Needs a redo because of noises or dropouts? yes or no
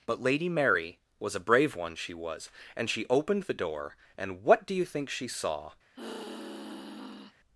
yes